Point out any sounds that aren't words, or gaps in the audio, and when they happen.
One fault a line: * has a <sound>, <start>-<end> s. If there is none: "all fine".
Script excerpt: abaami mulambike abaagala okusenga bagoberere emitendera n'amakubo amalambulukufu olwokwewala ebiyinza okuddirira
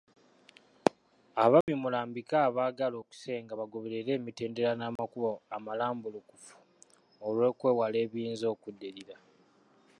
* has a dropout, 1.6-1.7 s
* has a dropout, 5.0-5.0 s